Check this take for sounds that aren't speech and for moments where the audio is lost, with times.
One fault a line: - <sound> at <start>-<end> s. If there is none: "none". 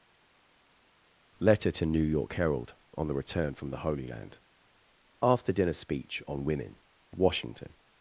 none